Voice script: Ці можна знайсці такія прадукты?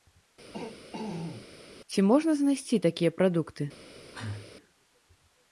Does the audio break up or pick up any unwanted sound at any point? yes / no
yes